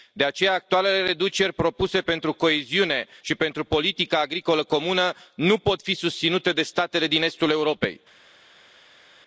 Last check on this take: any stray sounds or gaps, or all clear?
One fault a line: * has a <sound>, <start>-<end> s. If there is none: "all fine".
all fine